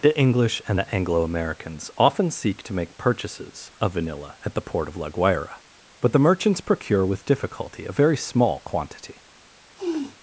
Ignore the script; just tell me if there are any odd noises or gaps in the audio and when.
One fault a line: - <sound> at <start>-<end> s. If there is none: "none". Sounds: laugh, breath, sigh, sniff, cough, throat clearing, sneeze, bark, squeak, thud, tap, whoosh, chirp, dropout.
- sniff at 9.8-10.2 s